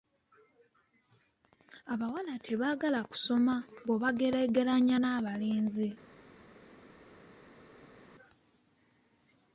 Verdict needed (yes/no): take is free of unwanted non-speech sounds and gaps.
yes